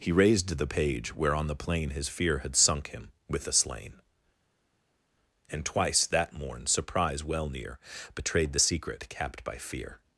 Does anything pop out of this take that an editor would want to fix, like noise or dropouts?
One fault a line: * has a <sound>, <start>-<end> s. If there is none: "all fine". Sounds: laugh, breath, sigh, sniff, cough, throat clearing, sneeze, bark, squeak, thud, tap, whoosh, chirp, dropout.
all fine